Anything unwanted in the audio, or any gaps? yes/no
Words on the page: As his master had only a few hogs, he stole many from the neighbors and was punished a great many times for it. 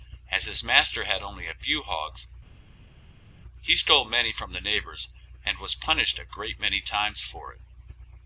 no